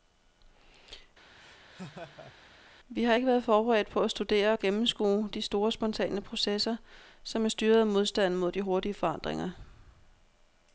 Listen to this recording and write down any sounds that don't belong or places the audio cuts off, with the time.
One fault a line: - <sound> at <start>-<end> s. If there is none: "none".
- laugh at 1.4-2.3 s